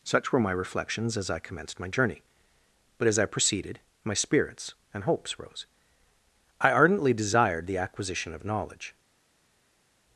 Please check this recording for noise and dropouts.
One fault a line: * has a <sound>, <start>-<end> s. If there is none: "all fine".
all fine